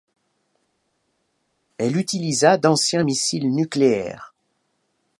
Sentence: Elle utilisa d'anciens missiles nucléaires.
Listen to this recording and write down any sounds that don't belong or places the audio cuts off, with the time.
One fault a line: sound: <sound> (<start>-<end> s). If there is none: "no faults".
no faults